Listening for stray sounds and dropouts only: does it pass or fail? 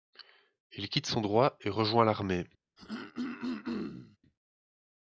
fail